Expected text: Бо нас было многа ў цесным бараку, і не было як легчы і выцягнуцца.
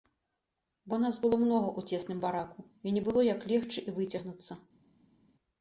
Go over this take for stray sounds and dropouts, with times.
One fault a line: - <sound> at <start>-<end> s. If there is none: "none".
none